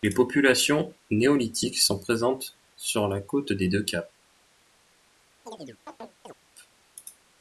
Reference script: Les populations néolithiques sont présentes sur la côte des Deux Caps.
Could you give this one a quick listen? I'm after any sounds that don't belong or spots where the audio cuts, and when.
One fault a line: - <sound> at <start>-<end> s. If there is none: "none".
- chirp at 5.5-6.3 s